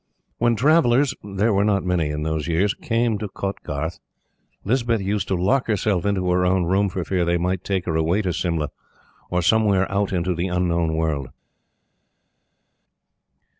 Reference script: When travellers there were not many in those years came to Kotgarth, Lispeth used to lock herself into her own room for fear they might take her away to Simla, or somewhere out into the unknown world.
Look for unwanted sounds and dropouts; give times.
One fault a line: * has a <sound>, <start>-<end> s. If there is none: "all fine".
all fine